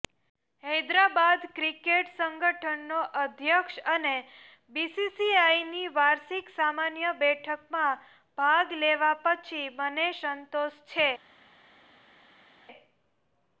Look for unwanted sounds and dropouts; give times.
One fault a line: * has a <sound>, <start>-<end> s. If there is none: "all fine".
all fine